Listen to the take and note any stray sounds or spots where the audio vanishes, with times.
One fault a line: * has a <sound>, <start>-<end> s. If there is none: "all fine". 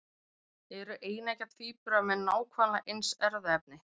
all fine